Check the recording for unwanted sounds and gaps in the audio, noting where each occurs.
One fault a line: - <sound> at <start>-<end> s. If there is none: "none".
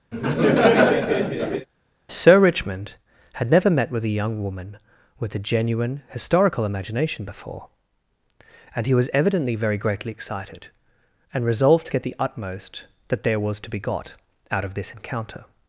- laugh at 0.1-1.7 s